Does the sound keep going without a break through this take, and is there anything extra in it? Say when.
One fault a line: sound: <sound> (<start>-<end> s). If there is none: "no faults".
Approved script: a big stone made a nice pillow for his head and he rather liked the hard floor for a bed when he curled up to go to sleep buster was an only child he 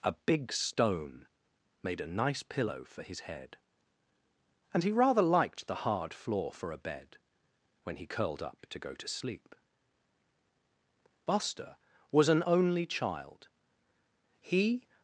no faults